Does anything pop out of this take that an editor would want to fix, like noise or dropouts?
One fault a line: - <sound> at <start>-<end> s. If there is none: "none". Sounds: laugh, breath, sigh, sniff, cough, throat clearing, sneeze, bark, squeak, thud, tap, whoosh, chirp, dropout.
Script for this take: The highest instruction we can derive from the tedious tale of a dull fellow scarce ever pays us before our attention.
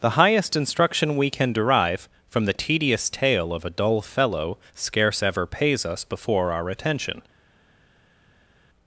none